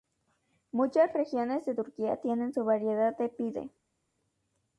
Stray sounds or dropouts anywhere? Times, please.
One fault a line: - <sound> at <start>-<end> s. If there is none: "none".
none